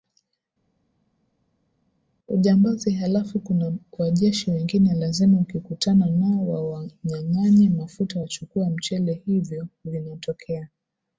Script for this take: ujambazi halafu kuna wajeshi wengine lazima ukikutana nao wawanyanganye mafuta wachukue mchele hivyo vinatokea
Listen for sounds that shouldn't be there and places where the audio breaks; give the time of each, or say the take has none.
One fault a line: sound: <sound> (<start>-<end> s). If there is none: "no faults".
no faults